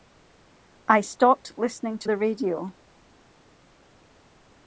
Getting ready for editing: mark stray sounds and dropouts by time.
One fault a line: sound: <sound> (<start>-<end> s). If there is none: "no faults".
no faults